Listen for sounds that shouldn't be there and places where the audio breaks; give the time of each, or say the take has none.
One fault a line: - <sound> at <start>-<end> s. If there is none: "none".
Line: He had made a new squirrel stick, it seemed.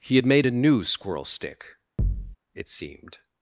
- thud at 2.0-2.4 s